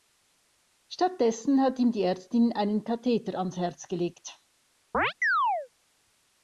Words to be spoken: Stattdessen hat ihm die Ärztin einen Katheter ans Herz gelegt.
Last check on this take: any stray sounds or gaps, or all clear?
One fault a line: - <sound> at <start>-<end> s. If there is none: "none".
- chirp at 4.9-5.7 s